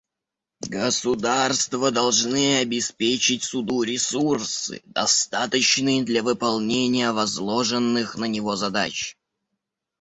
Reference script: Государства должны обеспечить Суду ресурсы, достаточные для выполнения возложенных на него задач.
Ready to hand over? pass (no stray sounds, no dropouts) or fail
pass